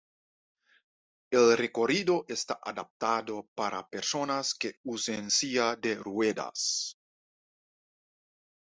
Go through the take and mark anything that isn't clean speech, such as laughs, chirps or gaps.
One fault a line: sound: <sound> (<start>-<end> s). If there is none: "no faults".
no faults